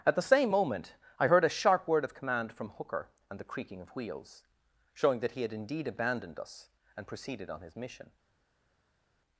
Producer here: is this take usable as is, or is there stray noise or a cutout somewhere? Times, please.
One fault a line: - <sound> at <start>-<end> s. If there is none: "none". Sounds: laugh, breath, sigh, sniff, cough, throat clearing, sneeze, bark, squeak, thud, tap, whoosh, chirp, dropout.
none